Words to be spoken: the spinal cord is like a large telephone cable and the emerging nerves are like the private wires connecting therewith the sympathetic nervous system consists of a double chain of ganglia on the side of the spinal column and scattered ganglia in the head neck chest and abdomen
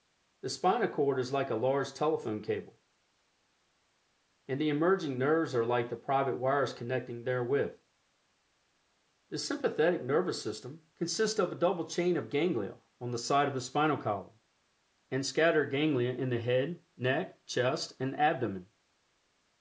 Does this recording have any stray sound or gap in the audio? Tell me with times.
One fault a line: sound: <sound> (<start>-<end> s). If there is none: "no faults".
no faults